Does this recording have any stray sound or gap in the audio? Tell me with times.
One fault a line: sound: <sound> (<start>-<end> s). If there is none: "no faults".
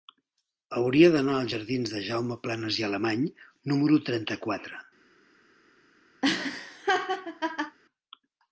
sound: laugh (6.2-7.8 s)